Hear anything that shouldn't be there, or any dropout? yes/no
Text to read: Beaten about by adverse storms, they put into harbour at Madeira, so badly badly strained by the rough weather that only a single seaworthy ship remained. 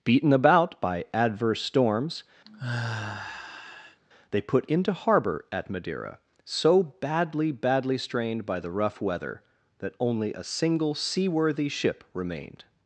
yes